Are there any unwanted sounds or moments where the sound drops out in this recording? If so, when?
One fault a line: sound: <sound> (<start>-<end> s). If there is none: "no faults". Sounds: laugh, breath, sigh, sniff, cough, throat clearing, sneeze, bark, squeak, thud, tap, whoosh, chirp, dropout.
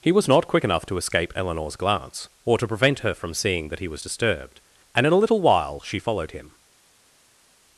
no faults